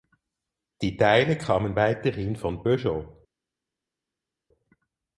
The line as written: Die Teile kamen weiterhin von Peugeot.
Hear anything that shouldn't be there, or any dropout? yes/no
no